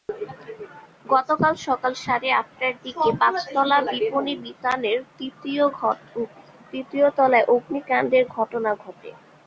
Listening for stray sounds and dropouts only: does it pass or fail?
pass